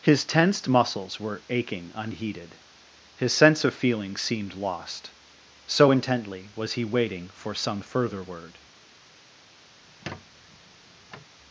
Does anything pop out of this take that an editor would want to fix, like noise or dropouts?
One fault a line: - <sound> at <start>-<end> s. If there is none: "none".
- squeak at 9.8-11.4 s